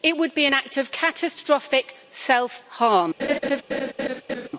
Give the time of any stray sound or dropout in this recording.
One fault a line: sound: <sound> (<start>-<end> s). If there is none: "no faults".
sound: laugh (3.2-4.5 s)